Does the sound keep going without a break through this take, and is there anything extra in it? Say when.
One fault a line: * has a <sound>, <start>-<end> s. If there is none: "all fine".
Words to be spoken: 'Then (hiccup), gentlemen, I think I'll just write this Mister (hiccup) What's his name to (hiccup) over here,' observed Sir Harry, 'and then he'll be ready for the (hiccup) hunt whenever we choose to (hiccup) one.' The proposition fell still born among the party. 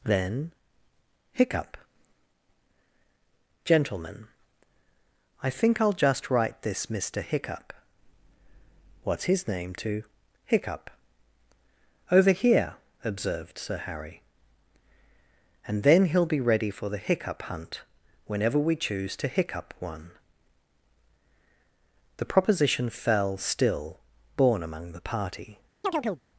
* has a chirp, 25.8-26.2 s